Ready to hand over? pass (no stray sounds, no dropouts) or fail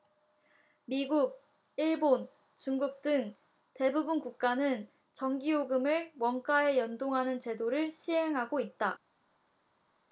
pass